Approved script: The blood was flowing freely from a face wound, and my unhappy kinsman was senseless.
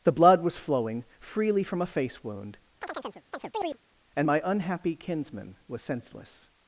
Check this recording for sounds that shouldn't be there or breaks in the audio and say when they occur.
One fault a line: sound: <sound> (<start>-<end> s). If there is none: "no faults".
sound: chirp (2.8-3.8 s)